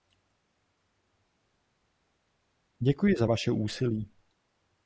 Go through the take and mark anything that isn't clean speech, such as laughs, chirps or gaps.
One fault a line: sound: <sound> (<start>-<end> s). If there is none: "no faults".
no faults